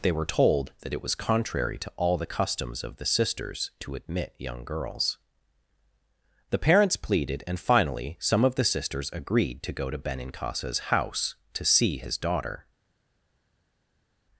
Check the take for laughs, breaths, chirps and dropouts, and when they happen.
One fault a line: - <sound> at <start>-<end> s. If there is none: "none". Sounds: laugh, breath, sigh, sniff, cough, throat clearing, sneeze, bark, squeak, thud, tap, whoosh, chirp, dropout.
none